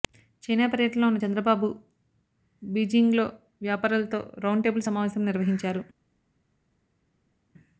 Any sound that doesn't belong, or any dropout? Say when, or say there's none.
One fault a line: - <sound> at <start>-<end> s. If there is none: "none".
none